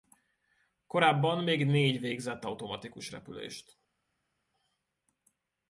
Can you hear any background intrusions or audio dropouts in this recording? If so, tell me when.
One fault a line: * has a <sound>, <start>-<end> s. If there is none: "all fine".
all fine